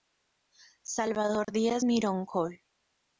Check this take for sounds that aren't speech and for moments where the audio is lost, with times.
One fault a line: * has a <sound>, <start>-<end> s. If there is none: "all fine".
* has a dropout, 1.4-1.5 s